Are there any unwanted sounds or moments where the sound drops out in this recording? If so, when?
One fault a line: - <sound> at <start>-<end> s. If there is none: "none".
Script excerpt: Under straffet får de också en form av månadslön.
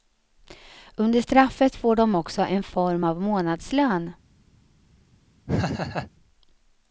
- laugh at 5.5-6.1 s